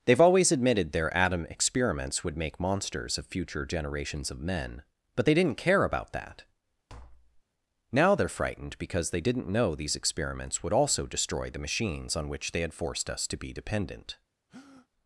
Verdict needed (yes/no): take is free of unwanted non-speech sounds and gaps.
no